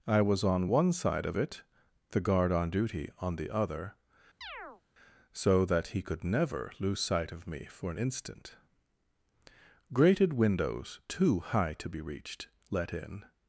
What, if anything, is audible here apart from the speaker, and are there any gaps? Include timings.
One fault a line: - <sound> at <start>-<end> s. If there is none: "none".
- chirp at 4.4-4.8 s